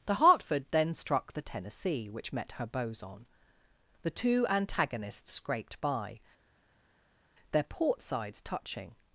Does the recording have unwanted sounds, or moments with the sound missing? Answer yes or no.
no